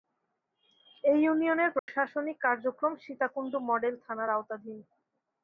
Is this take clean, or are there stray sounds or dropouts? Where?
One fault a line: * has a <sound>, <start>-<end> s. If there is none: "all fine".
* has a dropout, 1.8-1.9 s